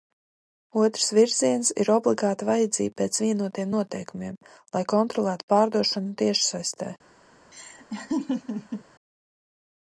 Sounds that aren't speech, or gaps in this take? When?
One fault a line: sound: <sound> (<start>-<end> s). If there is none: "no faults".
sound: laugh (7.5-8.8 s)